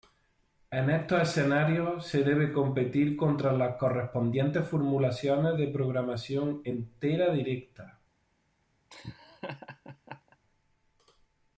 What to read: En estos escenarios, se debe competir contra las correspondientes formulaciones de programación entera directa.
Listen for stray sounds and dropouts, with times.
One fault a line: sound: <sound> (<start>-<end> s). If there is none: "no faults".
sound: laugh (8.9-10.4 s)